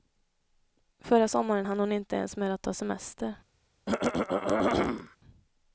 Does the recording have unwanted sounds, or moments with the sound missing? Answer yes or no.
yes